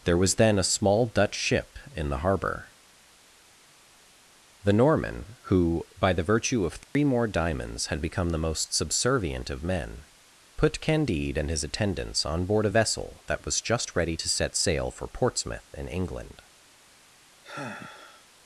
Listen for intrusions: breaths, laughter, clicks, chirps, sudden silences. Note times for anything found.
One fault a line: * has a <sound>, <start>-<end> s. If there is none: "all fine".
* has a dropout, 6.8-7.0 s
* has a sigh, 17.4-18.3 s